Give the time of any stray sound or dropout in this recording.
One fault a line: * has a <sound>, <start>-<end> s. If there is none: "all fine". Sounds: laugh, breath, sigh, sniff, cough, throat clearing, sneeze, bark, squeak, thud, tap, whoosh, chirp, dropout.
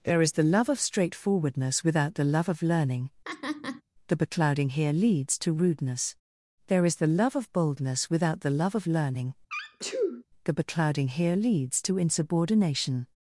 * has a laugh, 3.2-3.8 s
* has a sneeze, 9.5-10.2 s